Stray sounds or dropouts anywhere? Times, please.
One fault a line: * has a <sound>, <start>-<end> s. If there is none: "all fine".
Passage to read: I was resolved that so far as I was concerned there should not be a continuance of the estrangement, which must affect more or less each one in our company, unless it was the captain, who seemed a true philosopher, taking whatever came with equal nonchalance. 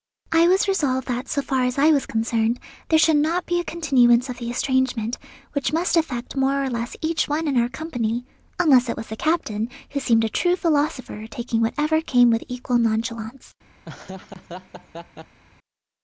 * has a laugh, 13.8-15.4 s